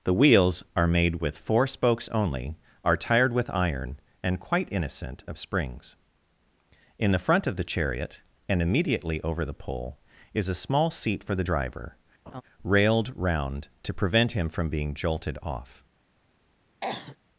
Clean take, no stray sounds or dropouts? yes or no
no